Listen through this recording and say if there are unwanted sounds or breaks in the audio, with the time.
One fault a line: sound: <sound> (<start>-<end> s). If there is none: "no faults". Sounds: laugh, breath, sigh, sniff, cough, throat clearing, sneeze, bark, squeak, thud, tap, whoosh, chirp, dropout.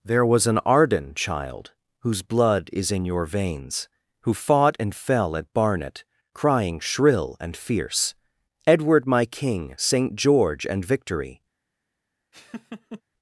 sound: laugh (12.3-13.0 s)